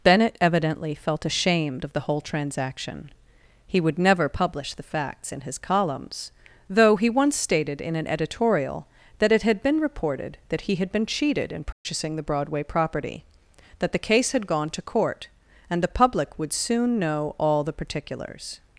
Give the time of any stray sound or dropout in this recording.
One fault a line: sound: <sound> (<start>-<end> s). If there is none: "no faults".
sound: dropout (11.7-11.9 s)